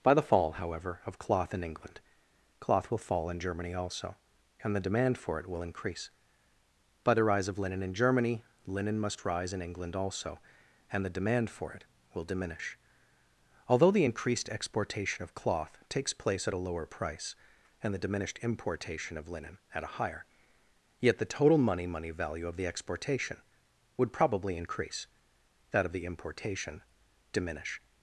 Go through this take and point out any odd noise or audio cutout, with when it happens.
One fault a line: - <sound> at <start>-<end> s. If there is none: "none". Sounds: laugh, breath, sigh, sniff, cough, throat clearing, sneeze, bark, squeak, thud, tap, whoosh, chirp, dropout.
none